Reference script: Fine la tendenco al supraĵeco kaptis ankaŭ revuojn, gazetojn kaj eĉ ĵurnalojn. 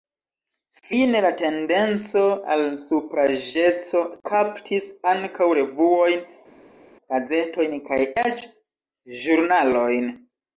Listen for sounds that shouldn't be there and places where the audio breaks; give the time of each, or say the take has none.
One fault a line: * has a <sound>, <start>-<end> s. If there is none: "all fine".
all fine